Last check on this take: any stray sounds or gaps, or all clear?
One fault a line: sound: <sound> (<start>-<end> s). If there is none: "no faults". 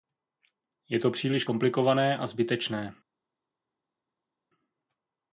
no faults